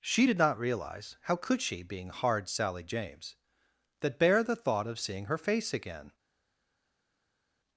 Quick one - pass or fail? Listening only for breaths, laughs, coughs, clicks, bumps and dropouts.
pass